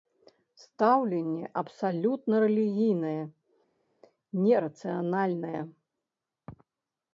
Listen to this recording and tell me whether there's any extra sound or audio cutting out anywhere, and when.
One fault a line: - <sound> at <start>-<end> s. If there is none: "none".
none